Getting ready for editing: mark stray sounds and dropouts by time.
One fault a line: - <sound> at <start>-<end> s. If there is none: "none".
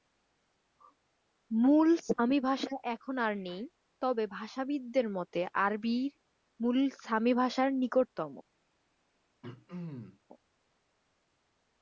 - throat clearing at 9.4-10.2 s